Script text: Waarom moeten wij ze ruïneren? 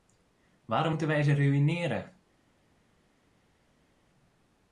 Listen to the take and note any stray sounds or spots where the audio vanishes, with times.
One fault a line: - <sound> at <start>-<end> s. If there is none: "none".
none